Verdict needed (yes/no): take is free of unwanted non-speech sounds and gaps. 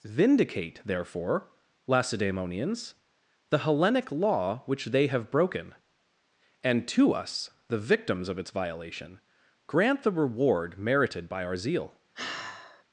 no